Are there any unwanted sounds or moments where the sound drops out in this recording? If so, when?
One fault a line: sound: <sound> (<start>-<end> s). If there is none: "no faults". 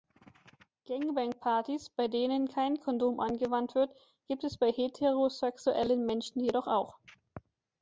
no faults